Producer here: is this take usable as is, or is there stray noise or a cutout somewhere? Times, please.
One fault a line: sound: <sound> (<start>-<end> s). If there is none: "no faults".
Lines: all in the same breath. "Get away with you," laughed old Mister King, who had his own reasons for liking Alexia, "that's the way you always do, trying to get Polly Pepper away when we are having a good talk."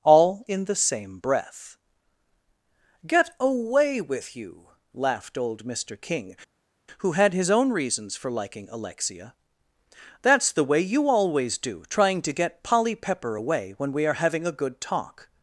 no faults